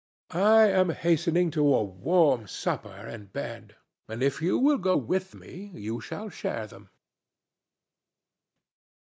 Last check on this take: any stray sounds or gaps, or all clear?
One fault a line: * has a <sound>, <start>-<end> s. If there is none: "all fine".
all fine